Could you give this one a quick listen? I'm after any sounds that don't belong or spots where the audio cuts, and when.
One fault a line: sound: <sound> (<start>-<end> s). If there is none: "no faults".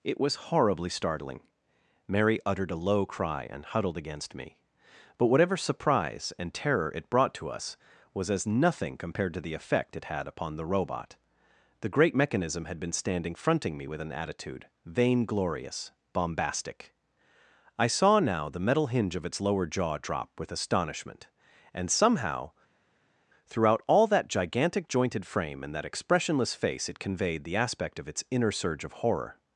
no faults